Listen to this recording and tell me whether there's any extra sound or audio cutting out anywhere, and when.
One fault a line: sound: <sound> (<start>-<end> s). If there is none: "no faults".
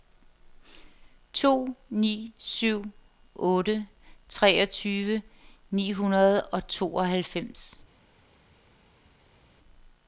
no faults